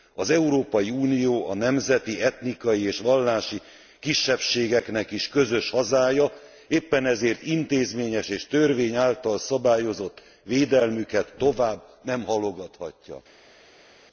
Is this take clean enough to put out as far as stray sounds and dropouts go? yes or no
yes